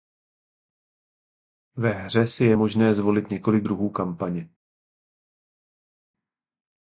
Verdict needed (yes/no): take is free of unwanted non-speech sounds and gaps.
yes